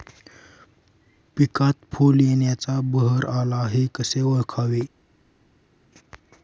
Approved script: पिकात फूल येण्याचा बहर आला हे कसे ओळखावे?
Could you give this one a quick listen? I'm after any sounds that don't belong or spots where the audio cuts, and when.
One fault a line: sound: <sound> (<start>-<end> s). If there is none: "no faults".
no faults